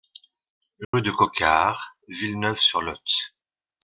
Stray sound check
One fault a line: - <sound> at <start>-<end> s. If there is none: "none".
- dropout at 0.8-0.9 s